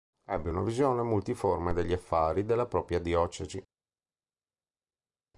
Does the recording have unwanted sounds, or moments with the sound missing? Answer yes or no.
no